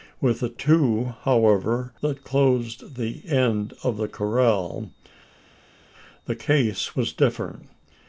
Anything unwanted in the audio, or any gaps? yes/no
no